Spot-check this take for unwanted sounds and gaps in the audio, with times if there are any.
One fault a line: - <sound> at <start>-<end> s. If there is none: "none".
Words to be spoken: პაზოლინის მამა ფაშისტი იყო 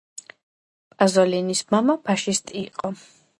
none